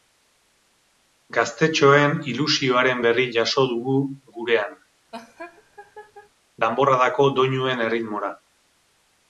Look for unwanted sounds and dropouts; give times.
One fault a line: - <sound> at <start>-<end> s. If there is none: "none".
- laugh at 5.1-6.3 s